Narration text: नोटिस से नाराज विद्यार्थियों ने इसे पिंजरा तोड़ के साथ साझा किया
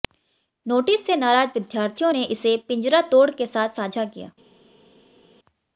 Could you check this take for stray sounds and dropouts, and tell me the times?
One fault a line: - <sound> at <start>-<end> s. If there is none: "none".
none